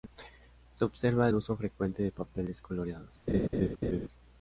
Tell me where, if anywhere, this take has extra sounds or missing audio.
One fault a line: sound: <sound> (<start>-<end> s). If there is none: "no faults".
sound: laugh (3.3-4.1 s)